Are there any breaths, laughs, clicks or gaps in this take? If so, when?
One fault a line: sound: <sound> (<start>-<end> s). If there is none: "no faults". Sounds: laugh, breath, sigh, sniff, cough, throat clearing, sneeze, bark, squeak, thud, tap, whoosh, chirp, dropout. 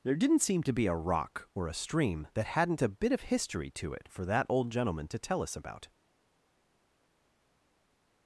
no faults